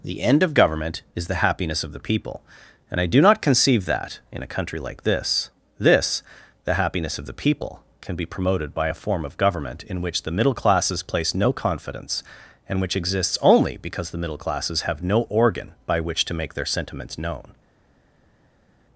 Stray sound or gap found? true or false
false